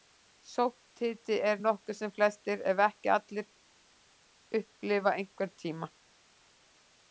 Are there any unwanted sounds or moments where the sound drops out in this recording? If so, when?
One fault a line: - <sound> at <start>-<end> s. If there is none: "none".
none